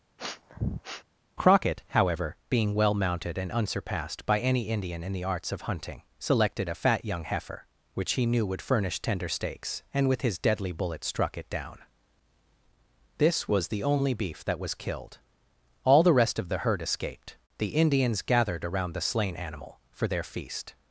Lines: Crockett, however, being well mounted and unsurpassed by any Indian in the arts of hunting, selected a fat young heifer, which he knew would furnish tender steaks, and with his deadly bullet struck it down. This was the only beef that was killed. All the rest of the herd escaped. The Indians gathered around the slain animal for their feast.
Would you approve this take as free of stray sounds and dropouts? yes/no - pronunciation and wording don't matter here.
no